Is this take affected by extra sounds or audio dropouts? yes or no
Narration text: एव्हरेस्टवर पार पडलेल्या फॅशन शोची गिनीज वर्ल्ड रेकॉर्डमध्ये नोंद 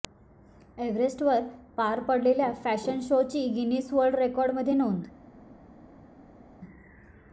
no